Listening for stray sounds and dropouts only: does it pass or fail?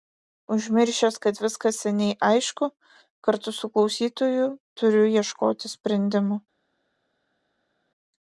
pass